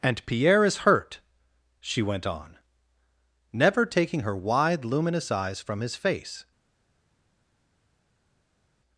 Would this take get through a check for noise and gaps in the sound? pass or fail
pass